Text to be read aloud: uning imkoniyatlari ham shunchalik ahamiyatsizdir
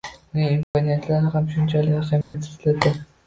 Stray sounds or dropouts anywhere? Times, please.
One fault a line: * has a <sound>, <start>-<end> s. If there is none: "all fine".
* has a dropout, 0.6-0.7 s
* has a dropout, 2.2-2.3 s